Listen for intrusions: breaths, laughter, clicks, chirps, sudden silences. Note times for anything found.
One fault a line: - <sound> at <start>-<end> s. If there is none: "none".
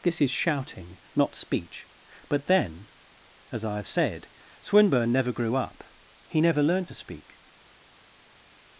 none